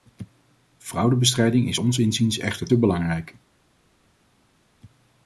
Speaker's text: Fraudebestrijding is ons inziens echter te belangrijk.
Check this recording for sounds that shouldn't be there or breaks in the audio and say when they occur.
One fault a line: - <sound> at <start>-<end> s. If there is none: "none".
none